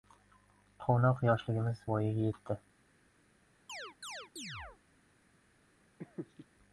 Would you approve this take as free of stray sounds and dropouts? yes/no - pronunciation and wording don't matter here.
no